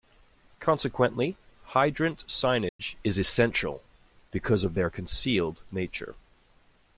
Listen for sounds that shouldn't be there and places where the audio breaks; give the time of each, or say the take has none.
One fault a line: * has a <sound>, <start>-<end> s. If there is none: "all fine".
* has a dropout, 2.7-2.8 s